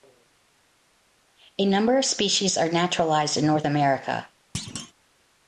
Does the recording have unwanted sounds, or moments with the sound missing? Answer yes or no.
yes